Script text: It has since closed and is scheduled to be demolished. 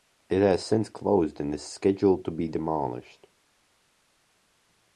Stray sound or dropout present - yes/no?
no